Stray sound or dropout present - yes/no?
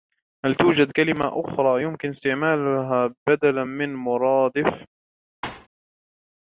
yes